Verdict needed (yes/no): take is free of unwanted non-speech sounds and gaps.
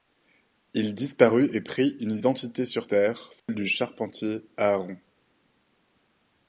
no